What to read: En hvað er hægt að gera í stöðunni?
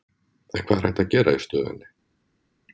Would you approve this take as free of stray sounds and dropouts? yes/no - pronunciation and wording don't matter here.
yes